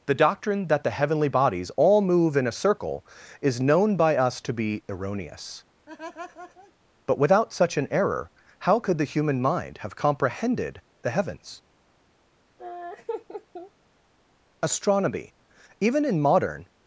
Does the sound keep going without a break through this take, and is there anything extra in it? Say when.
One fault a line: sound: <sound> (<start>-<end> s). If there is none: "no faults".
sound: laugh (5.9-6.7 s)
sound: laugh (12.6-13.7 s)